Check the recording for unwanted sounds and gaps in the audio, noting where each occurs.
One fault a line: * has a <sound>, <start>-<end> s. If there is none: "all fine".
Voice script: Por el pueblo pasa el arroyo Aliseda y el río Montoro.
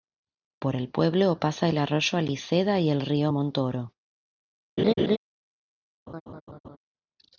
* has a laugh, 4.8-5.2 s
* has a laugh, 6.1-6.8 s